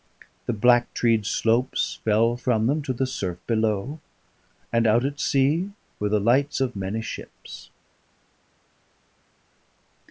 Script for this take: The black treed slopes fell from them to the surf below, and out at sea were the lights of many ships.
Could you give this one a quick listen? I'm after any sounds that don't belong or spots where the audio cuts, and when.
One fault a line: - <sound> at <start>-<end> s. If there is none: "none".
none